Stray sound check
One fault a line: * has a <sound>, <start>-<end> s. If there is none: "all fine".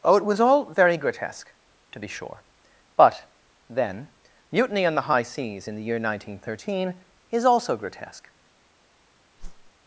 * has a whoosh, 9.4-9.7 s